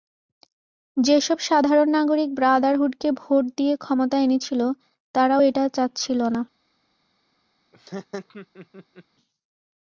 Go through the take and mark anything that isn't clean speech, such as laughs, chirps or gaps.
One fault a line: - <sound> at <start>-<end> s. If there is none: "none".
- laugh at 7.7-9.0 s